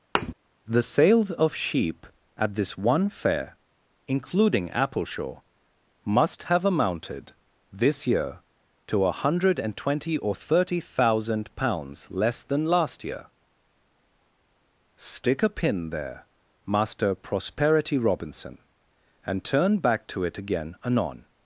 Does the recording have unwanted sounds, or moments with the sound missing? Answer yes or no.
yes